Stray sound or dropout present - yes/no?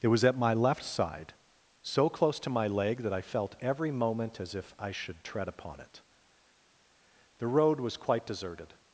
no